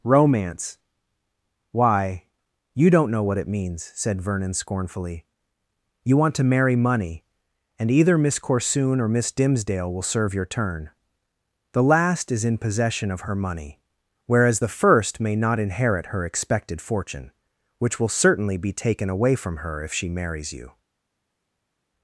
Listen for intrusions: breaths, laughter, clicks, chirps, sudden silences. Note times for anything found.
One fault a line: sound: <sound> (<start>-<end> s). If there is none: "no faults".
no faults